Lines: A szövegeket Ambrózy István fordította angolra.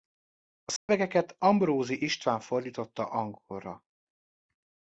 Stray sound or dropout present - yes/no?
yes